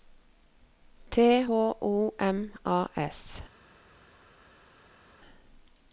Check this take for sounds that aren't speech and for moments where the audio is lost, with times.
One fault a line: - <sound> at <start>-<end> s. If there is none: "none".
none